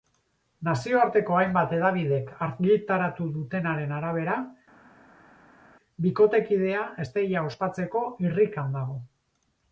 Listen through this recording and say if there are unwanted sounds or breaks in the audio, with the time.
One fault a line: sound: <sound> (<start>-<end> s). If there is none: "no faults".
no faults